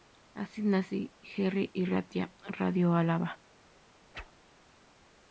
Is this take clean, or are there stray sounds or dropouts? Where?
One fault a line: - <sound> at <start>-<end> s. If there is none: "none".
- whoosh at 4.1-4.3 s